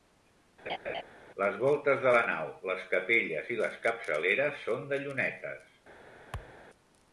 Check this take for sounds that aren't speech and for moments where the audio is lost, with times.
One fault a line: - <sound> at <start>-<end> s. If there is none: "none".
- laugh at 0.7-1.0 s
- thud at 6.3-6.6 s